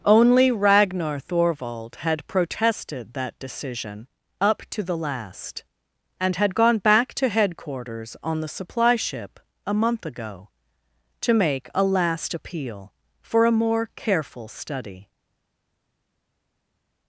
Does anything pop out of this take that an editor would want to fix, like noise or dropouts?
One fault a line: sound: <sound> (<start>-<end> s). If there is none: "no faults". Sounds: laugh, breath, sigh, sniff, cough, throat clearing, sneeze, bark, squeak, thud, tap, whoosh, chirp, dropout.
no faults